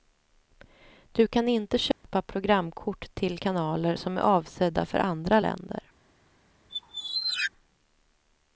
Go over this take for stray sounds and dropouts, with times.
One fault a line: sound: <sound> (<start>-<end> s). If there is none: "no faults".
sound: dropout (1.9-2.0 s)
sound: squeak (6.7-7.5 s)